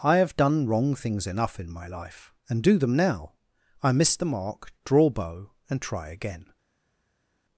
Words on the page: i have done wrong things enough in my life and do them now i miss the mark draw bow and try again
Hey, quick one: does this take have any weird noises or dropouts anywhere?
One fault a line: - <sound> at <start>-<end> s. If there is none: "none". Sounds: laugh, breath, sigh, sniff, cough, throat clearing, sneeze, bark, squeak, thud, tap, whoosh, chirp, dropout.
none